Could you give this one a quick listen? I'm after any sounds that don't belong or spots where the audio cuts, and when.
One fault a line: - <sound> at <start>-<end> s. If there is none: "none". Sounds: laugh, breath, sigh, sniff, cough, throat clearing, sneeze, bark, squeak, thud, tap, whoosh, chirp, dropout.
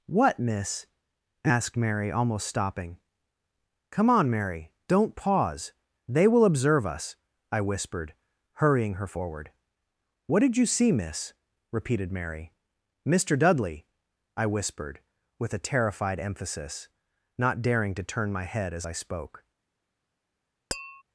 - tap at 20.7-21.0 s